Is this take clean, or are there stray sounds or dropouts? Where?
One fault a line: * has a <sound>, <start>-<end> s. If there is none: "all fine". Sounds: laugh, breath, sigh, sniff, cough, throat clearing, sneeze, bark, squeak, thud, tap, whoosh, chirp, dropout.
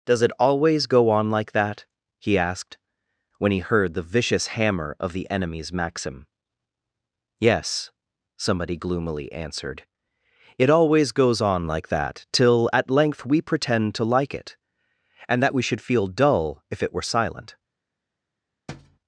* has a thud, 18.7-19.0 s